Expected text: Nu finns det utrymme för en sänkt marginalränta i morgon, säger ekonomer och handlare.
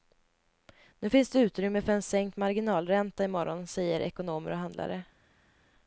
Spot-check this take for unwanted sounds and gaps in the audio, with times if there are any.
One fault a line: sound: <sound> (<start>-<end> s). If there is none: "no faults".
no faults